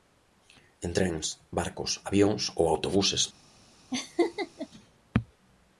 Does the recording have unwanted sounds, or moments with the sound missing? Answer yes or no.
yes